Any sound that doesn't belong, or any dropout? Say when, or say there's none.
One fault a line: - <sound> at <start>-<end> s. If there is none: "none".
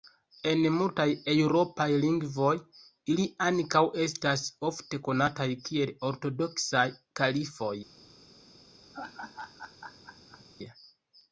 - laugh at 8.9-10.4 s